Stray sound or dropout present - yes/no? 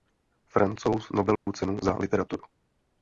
yes